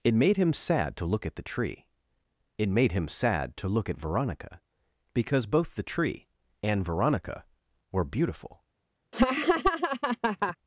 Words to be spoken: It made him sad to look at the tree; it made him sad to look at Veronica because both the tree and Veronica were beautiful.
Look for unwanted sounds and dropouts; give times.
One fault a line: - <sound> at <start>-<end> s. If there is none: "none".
- laugh at 9.1-10.6 s